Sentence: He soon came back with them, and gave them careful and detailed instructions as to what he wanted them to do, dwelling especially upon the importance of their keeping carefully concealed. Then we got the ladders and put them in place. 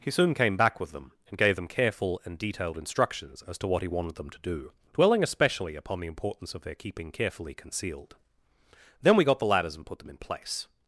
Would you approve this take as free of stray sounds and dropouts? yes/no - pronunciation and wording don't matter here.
yes